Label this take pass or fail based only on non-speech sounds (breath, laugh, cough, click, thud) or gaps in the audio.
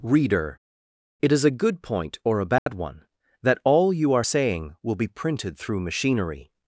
fail